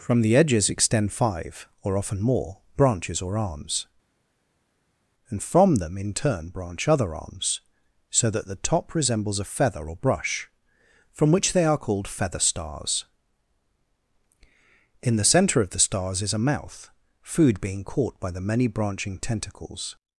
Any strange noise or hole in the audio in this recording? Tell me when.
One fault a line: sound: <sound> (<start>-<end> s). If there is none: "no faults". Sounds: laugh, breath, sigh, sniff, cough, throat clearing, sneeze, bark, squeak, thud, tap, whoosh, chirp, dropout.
no faults